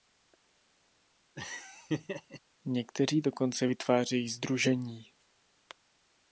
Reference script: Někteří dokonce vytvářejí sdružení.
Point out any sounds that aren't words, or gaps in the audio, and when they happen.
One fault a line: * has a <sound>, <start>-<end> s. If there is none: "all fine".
* has a laugh, 1.4-2.4 s